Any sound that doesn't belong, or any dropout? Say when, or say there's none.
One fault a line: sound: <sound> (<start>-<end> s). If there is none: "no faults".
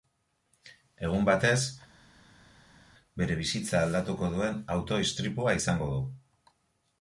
no faults